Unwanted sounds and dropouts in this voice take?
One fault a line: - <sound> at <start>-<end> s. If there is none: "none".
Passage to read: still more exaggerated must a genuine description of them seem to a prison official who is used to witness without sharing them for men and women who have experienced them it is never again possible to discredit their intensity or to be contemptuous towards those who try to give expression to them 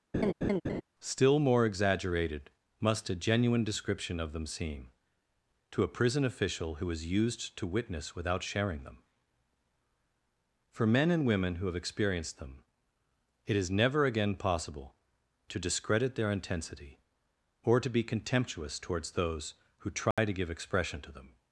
- laugh at 0.1-0.8 s
- dropout at 20.1-20.2 s